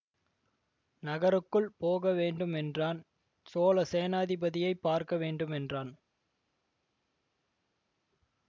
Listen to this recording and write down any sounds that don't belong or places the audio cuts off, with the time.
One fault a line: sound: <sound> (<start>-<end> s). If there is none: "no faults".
no faults